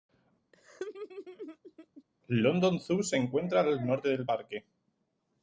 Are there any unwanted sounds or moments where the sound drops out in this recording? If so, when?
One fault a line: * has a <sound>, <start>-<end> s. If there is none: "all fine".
* has a laugh, 0.5-2.0 s